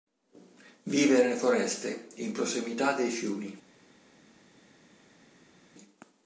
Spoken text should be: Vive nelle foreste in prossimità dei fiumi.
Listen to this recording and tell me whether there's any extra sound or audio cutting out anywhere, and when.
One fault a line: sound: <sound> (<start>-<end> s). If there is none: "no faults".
no faults